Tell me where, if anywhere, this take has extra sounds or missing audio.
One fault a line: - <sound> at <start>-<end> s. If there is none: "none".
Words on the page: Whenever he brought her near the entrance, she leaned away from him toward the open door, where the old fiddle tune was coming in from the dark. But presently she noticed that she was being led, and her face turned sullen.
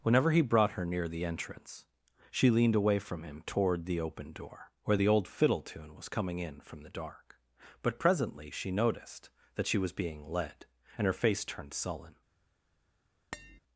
- tap at 13.3-13.6 s